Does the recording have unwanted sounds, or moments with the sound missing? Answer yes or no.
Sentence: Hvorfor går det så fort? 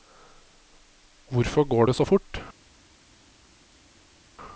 no